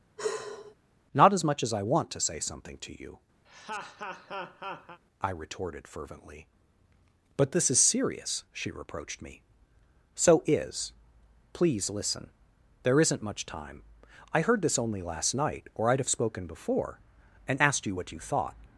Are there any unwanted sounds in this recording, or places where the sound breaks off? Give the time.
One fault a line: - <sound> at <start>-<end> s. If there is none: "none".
- sigh at 0.2-0.7 s
- laugh at 3.4-5.0 s